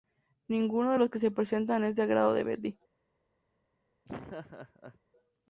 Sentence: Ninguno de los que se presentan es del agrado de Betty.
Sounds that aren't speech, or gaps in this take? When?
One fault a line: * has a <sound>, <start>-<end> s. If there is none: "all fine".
* has a laugh, 4.0-5.0 s